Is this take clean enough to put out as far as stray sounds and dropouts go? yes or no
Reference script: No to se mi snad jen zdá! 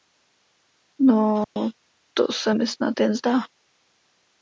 no